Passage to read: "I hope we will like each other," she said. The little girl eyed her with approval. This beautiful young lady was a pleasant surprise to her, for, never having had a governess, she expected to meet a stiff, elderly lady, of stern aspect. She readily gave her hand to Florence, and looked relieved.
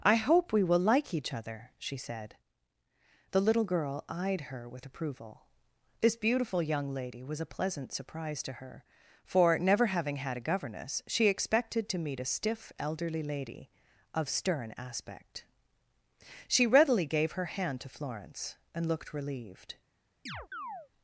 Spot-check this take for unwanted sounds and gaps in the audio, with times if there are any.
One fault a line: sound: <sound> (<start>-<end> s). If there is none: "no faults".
sound: chirp (20.3-20.9 s)